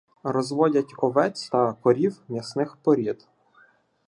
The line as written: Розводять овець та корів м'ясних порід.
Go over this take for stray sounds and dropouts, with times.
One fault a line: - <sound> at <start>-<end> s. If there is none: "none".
none